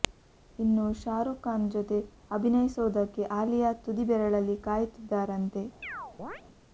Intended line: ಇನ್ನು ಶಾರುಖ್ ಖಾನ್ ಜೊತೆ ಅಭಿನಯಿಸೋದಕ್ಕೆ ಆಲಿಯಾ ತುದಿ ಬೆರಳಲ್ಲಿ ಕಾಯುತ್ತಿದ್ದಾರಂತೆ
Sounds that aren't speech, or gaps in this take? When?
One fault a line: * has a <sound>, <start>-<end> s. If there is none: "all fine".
* has a chirp, 5.8-6.4 s